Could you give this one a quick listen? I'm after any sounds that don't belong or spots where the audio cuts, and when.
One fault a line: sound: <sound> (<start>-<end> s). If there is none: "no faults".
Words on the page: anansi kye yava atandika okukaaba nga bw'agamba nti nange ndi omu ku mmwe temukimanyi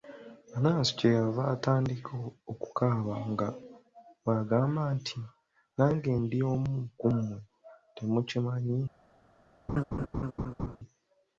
sound: laugh (9.7-10.8 s)